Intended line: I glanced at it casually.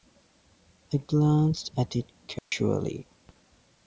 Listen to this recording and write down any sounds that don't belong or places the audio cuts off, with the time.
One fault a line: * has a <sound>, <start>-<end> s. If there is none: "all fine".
* has a dropout, 2.4-2.5 s